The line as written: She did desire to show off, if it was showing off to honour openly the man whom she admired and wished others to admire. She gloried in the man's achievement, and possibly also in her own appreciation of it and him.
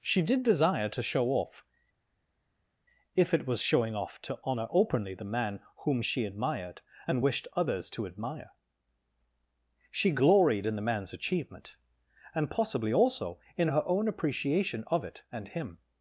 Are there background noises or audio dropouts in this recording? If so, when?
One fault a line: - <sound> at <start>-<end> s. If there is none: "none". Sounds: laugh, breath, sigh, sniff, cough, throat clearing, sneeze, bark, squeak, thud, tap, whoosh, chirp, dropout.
none